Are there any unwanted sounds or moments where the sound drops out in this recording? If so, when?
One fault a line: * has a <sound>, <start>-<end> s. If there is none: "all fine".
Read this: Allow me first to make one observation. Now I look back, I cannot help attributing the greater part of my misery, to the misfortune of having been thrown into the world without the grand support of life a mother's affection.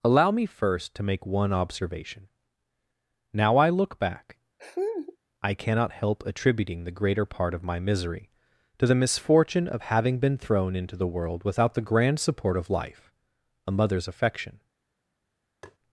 * has a laugh, 4.6-5.2 s
* has a tap, 15.6-15.8 s